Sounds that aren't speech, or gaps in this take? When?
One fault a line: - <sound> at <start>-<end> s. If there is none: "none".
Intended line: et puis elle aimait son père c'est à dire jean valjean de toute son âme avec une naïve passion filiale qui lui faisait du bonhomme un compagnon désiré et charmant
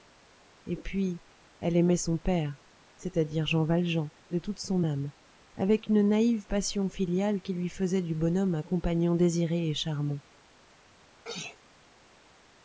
- sneeze at 11.2-11.6 s